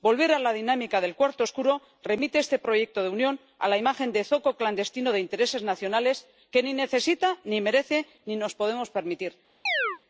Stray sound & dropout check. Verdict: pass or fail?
fail